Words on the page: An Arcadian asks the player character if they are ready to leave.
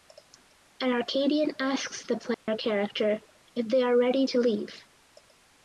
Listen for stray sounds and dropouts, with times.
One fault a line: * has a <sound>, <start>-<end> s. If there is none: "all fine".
* has a dropout, 2.3-2.5 s